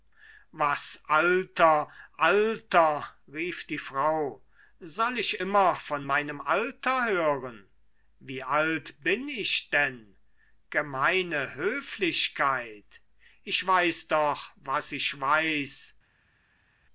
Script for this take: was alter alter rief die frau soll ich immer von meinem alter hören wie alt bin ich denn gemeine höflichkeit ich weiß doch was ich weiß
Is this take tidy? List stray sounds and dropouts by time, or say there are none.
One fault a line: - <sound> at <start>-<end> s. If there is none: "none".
none